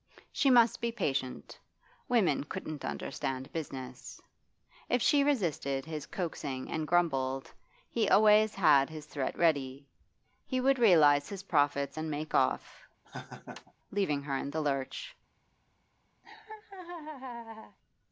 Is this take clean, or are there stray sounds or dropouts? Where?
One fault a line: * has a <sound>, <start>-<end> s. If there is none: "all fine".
* has a laugh, 13.0-13.7 s
* has a laugh, 16.2-17.8 s